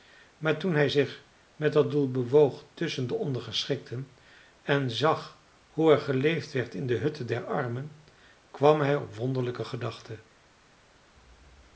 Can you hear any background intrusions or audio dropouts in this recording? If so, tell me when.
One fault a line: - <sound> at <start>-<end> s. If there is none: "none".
none